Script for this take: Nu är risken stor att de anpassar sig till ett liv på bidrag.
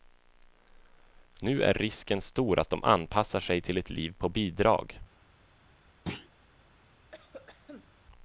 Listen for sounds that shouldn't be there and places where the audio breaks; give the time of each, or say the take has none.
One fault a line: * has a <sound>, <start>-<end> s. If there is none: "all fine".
* has a thud, 6.1-6.3 s
* has a cough, 7.1-7.9 s